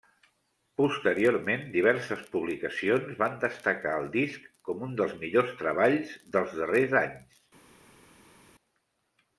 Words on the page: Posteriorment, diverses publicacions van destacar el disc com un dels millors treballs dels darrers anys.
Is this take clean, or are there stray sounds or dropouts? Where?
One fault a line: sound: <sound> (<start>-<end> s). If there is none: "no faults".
no faults